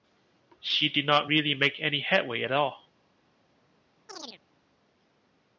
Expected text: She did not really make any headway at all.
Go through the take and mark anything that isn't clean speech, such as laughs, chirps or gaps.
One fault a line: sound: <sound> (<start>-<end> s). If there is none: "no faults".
sound: chirp (4.1-4.4 s)